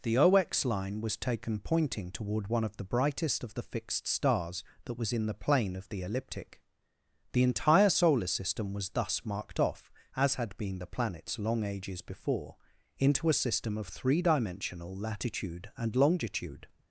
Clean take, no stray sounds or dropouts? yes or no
yes